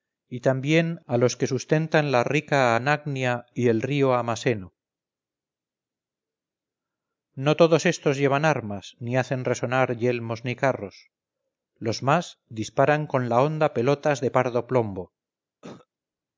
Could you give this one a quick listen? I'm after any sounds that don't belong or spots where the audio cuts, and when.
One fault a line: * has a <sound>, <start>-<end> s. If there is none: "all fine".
* has a cough, 15.6-15.9 s